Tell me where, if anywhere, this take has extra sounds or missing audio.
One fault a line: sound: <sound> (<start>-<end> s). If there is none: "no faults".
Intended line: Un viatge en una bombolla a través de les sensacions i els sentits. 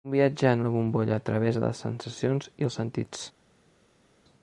no faults